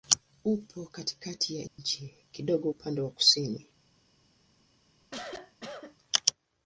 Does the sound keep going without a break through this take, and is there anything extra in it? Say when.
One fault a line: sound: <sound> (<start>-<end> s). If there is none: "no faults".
sound: dropout (1.7-1.8 s)
sound: cough (5.0-6.0 s)